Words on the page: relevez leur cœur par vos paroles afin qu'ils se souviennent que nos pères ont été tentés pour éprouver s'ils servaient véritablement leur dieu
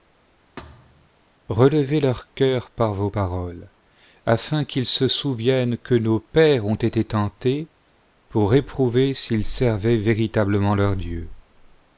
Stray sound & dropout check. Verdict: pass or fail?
fail